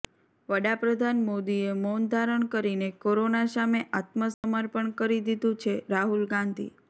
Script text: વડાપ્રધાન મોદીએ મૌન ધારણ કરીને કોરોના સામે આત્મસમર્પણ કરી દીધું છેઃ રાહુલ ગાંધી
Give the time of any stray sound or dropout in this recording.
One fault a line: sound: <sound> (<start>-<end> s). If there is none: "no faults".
sound: dropout (4.3-4.4 s)